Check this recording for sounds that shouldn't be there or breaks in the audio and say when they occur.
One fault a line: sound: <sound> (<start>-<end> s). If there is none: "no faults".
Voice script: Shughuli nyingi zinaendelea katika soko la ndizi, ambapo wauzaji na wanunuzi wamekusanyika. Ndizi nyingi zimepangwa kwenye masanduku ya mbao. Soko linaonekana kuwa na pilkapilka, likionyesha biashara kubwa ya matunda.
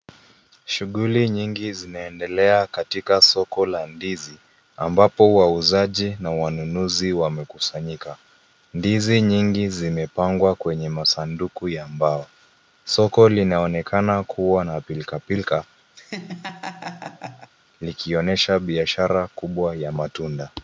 sound: laugh (15.9-17.5 s)